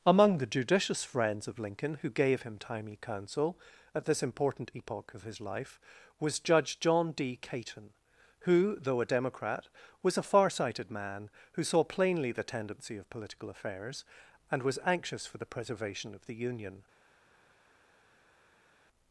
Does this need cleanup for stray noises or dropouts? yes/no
no